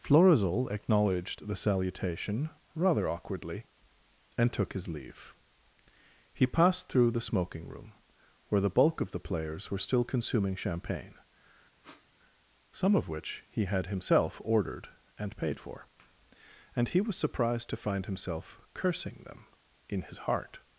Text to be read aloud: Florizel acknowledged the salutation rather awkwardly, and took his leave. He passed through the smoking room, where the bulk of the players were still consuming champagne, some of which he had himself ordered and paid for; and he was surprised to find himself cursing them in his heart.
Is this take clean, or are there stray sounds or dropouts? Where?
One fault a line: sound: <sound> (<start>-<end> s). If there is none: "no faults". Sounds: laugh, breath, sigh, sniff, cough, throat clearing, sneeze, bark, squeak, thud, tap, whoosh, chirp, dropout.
sound: sniff (11.8-12.1 s)